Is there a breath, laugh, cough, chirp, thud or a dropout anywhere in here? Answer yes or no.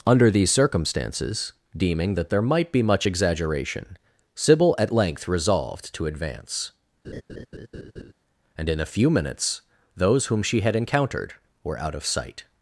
yes